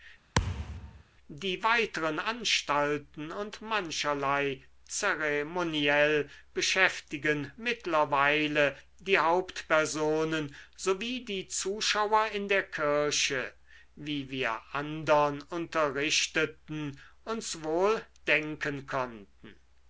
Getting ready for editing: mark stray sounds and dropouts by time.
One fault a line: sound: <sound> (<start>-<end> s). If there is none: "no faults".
sound: thud (0.3-1.0 s)